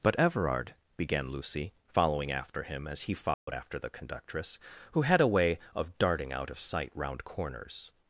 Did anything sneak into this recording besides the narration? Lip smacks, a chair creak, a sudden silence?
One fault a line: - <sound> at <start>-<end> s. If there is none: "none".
- dropout at 3.3-3.5 s